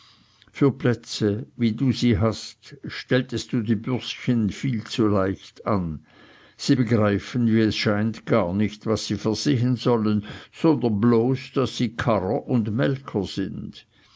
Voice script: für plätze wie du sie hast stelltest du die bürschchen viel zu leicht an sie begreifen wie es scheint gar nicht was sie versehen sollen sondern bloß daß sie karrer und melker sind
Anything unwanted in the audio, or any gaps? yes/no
no